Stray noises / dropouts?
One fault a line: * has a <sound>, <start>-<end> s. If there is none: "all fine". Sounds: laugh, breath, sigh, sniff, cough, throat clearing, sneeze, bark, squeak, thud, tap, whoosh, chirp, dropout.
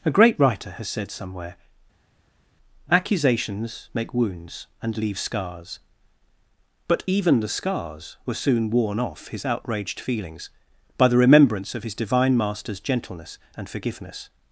all fine